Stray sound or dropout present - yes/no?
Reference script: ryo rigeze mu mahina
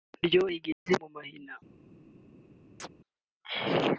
yes